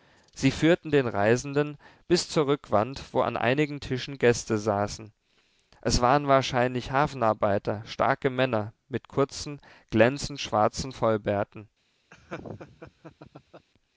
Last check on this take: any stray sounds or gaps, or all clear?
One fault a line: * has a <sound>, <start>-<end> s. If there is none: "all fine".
* has a laugh, 12.1-13.7 s